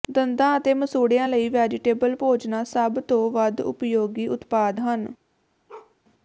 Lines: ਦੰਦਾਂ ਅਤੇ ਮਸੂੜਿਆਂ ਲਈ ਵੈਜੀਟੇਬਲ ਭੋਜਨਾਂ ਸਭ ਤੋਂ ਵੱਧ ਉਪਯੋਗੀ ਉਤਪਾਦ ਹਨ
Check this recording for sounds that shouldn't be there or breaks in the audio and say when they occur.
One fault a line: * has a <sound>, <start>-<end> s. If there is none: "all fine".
* has a bark, 5.7-6.0 s